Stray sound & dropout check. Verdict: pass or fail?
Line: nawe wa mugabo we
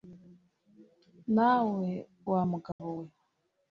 fail